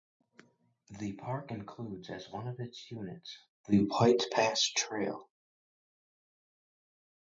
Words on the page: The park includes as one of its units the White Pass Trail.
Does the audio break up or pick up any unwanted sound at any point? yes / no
no